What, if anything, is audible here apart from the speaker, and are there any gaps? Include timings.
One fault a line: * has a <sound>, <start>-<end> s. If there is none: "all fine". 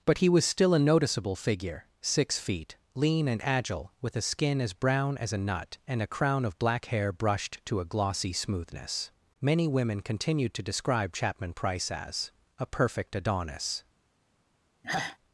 * has a sigh, 14.8-15.2 s